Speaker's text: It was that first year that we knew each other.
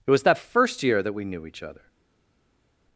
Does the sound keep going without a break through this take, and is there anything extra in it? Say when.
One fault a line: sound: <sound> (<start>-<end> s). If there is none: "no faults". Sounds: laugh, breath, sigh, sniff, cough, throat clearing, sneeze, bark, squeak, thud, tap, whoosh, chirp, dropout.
no faults